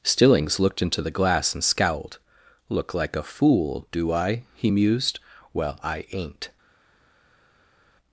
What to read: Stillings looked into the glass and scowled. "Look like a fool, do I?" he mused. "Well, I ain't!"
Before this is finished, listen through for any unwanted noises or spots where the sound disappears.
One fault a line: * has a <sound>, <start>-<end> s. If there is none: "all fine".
all fine